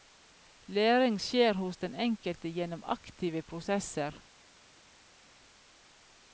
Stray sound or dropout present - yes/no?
no